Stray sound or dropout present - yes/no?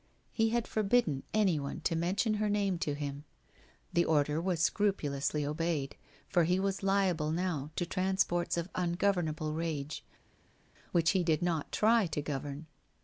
no